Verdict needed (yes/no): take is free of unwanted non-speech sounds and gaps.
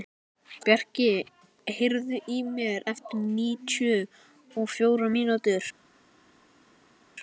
yes